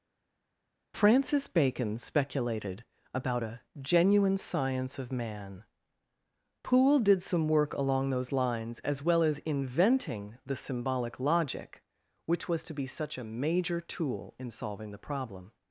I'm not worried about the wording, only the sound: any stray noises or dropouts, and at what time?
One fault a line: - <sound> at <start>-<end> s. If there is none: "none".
none